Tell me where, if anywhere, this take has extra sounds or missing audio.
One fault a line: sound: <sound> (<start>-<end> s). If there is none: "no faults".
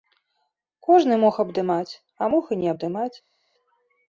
no faults